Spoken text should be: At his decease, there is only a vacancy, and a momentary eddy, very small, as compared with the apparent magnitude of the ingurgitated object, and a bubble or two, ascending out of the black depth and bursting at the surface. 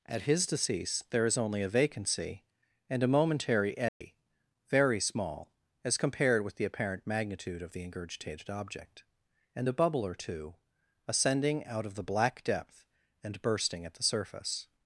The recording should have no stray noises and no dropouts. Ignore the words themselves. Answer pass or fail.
fail